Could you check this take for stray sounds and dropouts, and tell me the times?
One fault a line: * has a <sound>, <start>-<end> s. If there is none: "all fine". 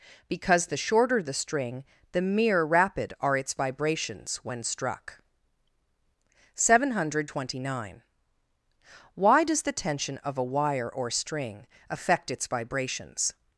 all fine